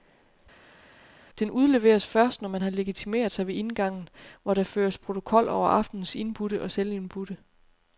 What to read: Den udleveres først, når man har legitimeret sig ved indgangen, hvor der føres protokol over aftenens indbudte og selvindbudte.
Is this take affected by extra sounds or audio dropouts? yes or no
no